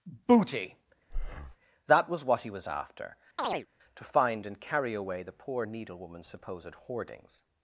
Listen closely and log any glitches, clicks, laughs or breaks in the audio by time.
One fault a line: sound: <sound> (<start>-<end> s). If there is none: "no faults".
sound: breath (1.1-1.6 s)
sound: chirp (3.4-3.7 s)